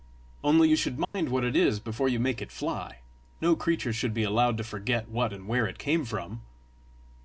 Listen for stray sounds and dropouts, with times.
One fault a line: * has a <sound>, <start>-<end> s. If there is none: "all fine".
* has a dropout, 1.0-1.1 s